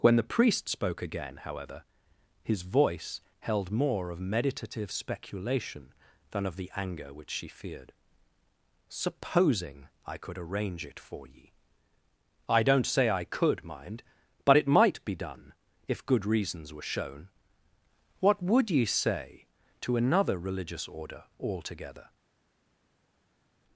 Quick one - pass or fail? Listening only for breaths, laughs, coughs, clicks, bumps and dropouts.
pass